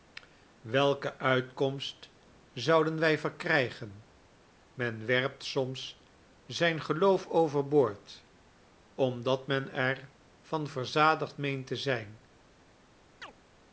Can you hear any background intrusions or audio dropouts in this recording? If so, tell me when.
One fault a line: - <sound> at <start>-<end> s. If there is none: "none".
- chirp at 13.2-13.3 s